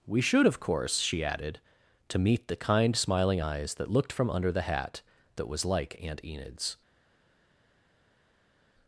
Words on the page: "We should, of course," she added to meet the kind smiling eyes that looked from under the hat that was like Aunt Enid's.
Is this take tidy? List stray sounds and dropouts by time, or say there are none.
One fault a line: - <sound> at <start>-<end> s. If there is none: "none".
none